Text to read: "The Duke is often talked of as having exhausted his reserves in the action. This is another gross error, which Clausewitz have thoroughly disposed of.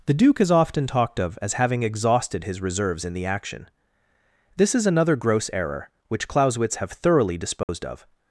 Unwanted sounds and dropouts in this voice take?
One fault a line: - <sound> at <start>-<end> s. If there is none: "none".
- dropout at 7.6-7.7 s